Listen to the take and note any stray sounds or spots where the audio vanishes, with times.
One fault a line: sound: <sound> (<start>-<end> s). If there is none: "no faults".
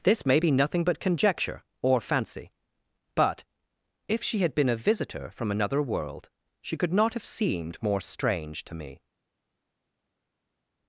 no faults